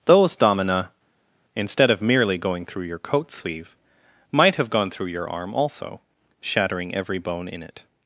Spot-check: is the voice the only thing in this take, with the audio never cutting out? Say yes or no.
yes